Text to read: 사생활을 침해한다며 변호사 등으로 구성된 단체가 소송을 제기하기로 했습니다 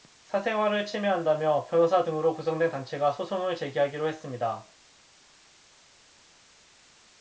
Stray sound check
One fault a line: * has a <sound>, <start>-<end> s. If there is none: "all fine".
all fine